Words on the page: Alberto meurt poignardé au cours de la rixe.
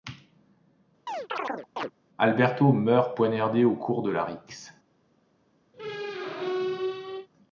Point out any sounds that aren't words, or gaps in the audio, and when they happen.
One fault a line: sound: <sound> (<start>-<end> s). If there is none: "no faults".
sound: chirp (1.1-1.9 s)
sound: squeak (5.7-7.3 s)